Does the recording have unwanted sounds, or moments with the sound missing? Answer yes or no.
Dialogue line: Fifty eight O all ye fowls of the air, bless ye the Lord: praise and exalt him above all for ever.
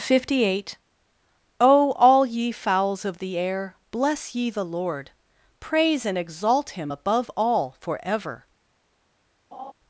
yes